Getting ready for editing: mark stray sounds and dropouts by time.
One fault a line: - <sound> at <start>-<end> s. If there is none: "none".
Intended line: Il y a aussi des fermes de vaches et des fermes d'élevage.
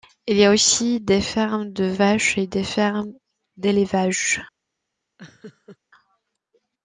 - laugh at 5.2-5.8 s